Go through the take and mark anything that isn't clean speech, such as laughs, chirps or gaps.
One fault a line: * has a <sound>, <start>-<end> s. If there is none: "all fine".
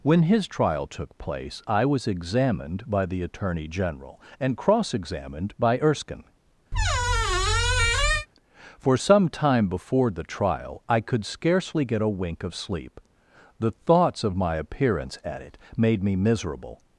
* has a squeak, 6.7-8.3 s